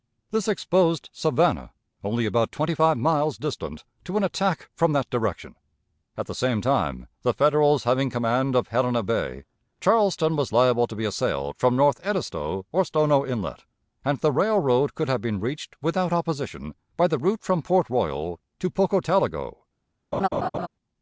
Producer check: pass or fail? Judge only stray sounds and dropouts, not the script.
fail